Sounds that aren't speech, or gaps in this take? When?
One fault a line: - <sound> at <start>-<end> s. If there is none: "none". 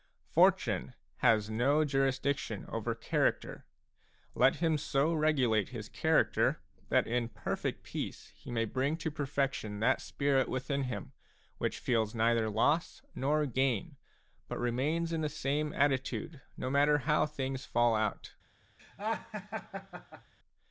- laugh at 18.8-20.3 s